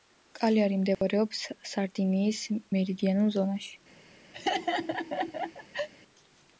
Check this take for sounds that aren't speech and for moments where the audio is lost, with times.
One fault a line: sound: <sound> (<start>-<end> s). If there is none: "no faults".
sound: dropout (0.9-1.0 s)
sound: laugh (4.3-5.9 s)